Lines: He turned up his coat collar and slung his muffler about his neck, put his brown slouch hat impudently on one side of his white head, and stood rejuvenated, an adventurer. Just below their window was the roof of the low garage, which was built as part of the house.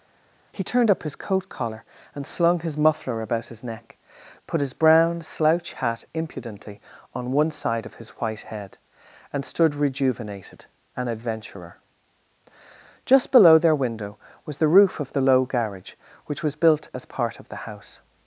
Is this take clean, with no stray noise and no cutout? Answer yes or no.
yes